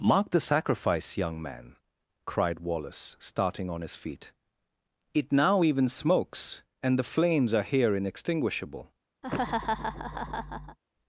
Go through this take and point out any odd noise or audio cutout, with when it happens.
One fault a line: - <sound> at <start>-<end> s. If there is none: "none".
- laugh at 9.2-10.8 s